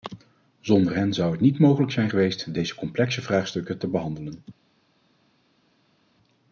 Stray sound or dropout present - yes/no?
no